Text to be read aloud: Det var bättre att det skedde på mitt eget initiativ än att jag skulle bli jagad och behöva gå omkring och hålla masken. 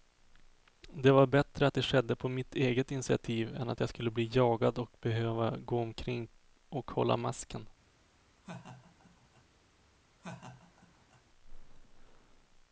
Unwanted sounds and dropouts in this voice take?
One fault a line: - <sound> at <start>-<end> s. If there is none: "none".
- laugh at 8.4-9.4 s
- laugh at 10.2-11.2 s